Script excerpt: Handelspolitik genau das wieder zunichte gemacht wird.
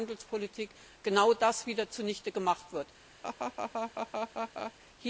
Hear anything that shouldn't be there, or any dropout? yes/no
yes